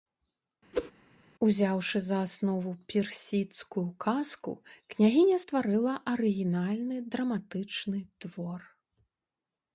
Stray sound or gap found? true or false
true